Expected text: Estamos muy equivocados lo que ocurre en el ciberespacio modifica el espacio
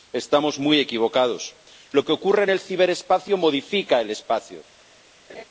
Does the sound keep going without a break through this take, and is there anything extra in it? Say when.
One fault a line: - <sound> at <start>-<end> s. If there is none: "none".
- laugh at 5.3-5.4 s